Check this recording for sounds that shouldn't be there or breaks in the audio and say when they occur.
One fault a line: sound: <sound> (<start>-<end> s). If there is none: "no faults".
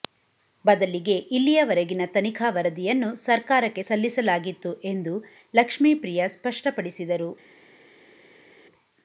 no faults